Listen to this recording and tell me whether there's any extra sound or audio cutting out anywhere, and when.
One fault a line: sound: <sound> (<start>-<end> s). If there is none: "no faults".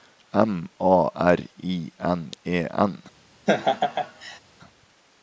sound: laugh (3.5-4.4 s)